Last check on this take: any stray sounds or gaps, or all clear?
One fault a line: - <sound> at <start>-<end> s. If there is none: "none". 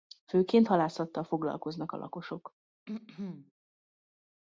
- throat clearing at 2.9-3.5 s